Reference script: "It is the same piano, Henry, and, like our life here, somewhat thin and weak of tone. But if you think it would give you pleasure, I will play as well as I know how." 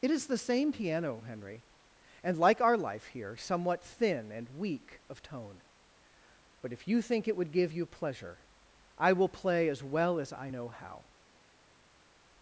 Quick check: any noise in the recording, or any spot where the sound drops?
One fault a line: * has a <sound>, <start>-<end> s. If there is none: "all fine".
all fine